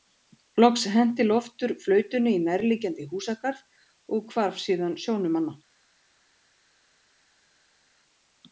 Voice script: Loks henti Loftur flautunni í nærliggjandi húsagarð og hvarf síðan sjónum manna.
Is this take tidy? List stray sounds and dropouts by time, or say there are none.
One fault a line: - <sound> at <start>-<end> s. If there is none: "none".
none